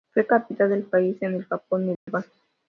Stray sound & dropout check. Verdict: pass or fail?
fail